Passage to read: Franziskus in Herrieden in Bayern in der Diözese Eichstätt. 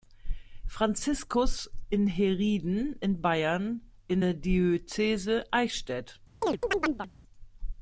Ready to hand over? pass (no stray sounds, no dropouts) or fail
fail